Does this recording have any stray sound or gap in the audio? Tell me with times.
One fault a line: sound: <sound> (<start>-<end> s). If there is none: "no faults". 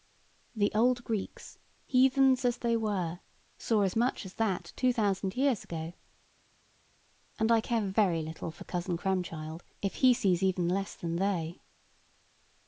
no faults